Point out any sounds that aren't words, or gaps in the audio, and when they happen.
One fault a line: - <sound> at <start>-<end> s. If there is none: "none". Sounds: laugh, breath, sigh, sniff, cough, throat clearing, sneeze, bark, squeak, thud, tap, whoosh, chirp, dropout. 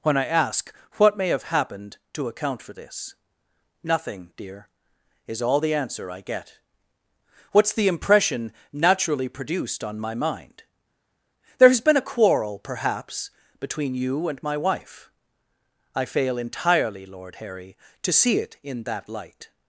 none